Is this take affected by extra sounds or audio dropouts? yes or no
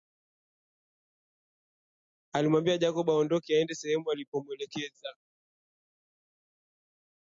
no